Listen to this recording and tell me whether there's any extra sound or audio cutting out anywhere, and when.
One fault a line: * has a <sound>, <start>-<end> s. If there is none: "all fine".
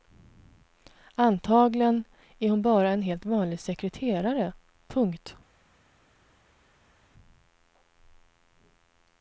all fine